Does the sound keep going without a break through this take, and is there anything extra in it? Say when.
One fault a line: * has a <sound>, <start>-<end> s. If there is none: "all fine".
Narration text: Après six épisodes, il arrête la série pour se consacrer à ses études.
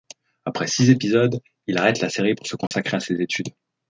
* has a dropout, 2.7-2.7 s